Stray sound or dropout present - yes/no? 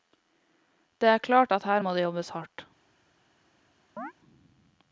yes